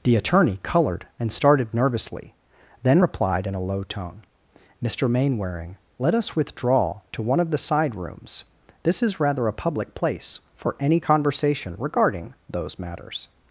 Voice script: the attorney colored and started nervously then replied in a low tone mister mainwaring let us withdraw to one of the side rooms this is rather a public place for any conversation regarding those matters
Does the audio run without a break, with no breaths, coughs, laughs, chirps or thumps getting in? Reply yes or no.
yes